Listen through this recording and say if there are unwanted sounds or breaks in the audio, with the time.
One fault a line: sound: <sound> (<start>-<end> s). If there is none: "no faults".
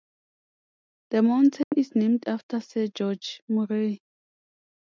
sound: dropout (1.6-1.7 s)